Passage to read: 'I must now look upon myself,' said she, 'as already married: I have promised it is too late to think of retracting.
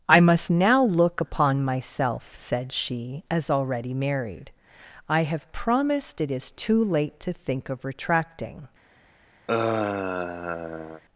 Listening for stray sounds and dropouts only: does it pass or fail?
fail